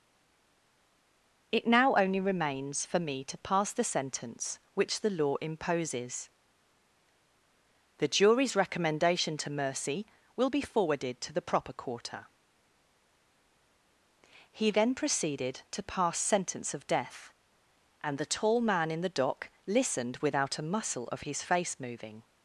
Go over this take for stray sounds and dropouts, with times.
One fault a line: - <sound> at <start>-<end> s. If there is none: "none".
none